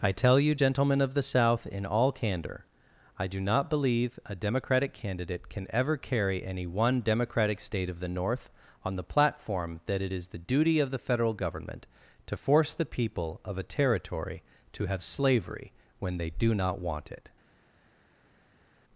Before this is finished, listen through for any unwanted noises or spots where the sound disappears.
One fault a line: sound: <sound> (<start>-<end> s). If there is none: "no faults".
no faults